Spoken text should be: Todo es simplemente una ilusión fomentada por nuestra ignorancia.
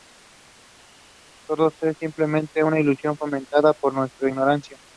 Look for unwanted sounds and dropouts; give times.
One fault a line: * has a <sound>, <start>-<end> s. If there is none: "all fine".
all fine